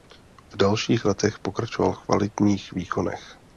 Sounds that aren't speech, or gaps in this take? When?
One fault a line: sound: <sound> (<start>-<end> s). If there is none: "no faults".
no faults